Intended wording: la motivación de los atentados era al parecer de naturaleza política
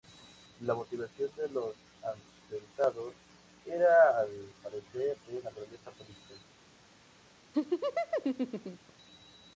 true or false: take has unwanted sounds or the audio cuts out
true